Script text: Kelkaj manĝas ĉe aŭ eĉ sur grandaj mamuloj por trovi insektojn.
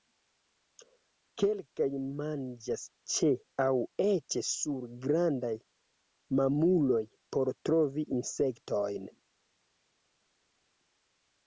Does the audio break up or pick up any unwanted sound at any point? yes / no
no